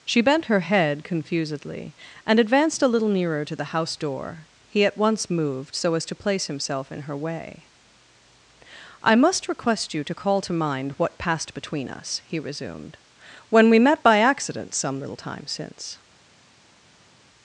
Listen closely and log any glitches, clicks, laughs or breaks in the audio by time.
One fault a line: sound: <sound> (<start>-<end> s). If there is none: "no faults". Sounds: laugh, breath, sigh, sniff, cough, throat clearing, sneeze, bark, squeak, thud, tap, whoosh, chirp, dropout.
no faults